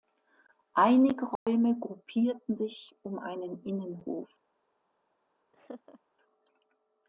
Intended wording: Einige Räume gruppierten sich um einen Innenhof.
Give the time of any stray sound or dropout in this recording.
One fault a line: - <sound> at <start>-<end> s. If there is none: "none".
- dropout at 1.4-1.5 s
- laugh at 5.5-6.0 s